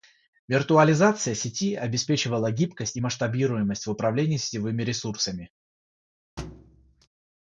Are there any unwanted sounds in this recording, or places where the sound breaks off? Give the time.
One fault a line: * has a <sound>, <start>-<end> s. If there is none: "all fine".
* has a thud, 6.4-7.1 s